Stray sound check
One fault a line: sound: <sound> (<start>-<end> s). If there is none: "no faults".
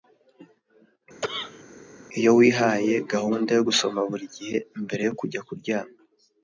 sound: cough (1.2-1.6 s)